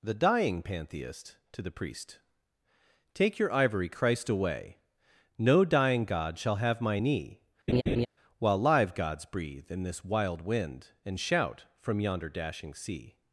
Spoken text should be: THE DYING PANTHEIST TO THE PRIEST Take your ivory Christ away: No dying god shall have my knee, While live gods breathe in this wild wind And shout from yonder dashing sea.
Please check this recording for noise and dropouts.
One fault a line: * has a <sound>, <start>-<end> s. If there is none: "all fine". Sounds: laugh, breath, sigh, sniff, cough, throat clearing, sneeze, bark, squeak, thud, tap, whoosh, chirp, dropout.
* has a laugh, 7.7-8.1 s